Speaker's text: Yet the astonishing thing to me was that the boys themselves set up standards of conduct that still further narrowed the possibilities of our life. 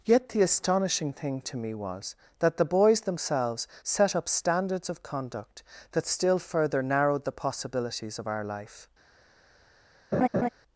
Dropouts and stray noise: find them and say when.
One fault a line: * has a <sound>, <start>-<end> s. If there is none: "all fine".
* has a laugh, 10.1-10.5 s